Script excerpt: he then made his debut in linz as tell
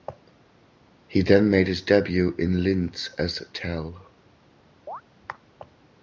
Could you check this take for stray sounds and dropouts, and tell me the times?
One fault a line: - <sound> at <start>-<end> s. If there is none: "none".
- chirp at 4.9-5.0 s